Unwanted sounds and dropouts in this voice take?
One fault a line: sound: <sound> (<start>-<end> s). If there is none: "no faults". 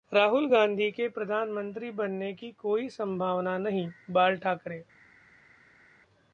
no faults